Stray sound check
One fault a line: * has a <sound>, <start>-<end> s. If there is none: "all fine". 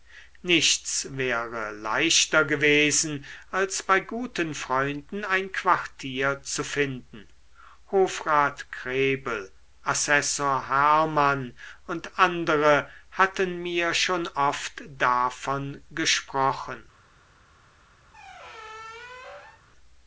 * has a squeak, 18.1-19.6 s